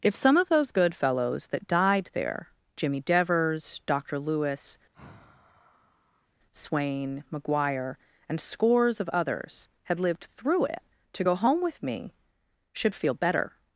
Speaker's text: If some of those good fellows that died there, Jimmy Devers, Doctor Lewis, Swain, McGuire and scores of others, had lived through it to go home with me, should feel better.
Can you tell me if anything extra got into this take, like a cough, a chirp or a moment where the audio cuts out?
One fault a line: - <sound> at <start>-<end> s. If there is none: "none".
- sigh at 4.9-6.3 s